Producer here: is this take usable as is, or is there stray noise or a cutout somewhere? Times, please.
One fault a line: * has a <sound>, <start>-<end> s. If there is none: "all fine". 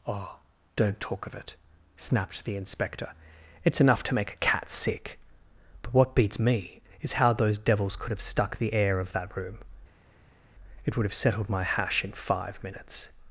all fine